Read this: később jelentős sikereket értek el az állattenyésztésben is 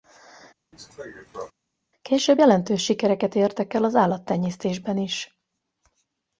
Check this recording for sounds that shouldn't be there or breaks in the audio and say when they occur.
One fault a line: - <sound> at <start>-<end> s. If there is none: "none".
- cough at 0.7-1.5 s